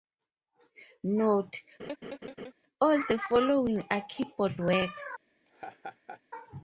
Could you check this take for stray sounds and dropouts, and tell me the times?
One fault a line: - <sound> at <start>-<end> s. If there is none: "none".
- laugh at 1.8-2.5 s
- laugh at 5.4-6.2 s